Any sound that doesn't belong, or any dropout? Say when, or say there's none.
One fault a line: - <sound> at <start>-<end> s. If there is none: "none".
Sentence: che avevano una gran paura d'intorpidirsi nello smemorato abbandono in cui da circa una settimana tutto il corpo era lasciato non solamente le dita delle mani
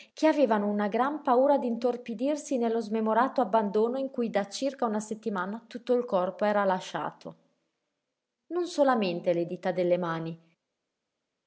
none